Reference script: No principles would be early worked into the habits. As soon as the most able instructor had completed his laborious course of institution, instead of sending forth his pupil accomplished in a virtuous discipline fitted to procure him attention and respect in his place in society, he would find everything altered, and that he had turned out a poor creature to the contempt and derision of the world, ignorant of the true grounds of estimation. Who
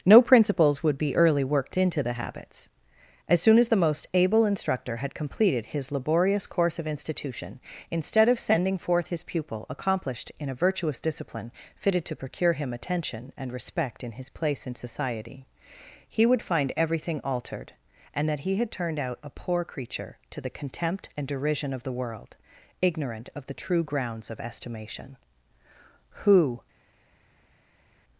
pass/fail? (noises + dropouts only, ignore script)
pass